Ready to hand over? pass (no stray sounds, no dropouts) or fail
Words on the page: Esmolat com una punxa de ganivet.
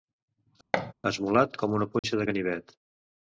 fail